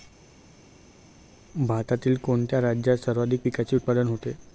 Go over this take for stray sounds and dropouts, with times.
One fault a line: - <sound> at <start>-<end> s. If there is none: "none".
none